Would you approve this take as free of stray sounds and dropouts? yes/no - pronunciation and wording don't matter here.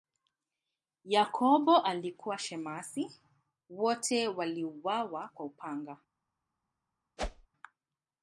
no